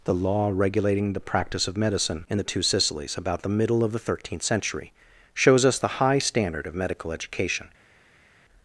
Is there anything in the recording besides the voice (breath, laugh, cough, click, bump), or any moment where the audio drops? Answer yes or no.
no